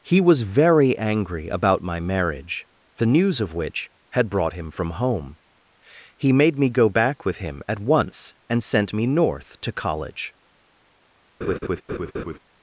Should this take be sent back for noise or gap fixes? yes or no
yes